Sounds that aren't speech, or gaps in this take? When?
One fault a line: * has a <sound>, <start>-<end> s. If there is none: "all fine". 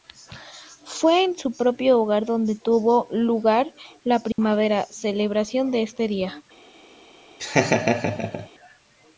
* has a dropout, 4.3-4.4 s
* has a laugh, 7.4-8.5 s